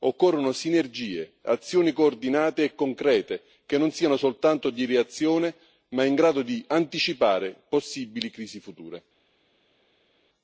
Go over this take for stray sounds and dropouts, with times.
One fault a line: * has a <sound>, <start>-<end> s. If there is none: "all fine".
all fine